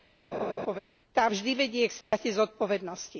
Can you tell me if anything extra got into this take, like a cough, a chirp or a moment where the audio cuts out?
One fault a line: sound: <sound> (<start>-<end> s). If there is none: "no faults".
sound: laugh (0.3-0.8 s)
sound: dropout (2.0-2.1 s)